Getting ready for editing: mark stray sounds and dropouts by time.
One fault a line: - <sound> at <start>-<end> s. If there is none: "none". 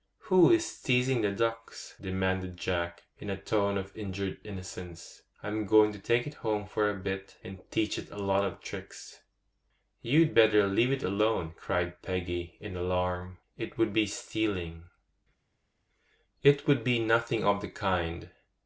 none